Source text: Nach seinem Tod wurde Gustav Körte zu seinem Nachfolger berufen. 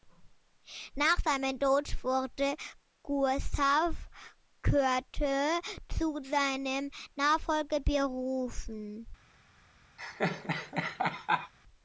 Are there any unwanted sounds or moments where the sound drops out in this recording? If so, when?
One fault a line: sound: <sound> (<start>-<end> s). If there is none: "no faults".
sound: laugh (10.0-11.5 s)